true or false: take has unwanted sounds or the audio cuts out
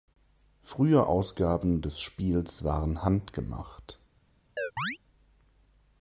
true